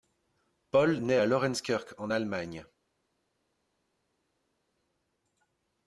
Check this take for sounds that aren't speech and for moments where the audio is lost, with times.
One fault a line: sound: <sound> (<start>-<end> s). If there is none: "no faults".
no faults